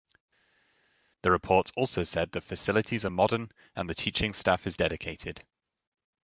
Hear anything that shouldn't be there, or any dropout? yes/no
no